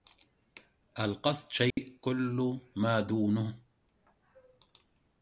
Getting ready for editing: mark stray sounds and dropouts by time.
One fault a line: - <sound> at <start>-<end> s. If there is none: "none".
- dropout at 1.7-1.8 s